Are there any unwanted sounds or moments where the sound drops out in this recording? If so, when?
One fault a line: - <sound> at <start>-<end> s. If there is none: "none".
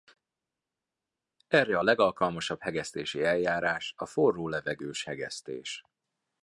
none